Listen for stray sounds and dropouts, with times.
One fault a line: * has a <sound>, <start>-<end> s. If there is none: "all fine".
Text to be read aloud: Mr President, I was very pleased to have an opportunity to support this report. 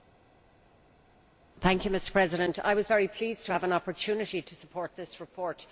all fine